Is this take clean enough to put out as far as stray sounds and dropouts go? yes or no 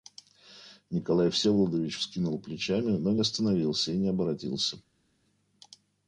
yes